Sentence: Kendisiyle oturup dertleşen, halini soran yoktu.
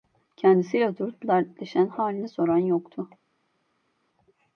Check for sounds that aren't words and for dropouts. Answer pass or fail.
pass